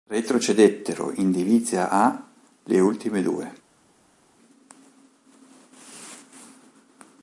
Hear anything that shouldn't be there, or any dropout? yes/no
no